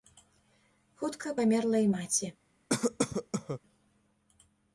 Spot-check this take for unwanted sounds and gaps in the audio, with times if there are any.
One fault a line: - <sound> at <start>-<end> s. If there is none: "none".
- cough at 2.7-3.6 s